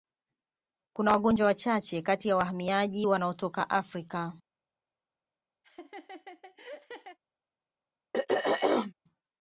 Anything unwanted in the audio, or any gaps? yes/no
yes